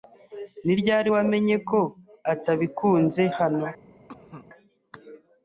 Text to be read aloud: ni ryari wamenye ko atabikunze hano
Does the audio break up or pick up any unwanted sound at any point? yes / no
yes